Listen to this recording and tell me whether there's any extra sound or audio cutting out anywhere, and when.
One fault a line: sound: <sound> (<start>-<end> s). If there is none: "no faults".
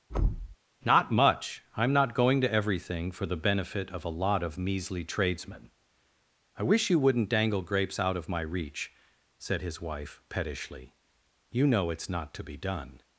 sound: thud (0.1-0.6 s)